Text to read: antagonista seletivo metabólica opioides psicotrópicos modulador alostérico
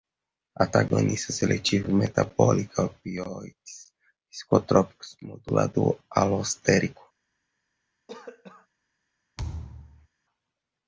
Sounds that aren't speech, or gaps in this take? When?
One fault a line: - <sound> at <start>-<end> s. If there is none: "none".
- cough at 8.1-8.7 s
- thud at 9.4-10.1 s